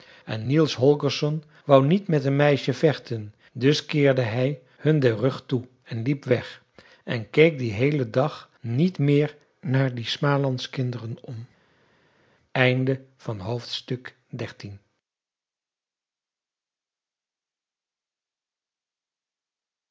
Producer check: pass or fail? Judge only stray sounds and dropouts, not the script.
pass